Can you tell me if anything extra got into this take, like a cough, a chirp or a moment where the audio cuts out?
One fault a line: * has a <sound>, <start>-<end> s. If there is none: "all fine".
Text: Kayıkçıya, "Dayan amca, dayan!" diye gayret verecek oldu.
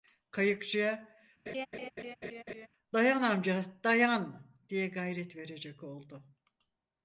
* has a laugh, 1.5-2.7 s